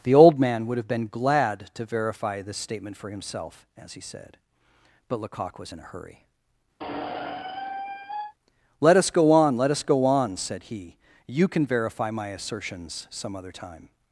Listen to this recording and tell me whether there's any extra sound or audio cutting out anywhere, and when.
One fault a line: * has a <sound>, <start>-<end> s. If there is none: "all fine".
* has a squeak, 6.8-8.3 s